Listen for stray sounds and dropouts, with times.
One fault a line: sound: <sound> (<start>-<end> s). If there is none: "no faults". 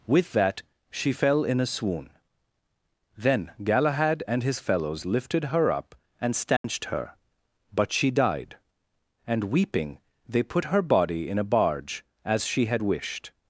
sound: dropout (6.6-6.6 s)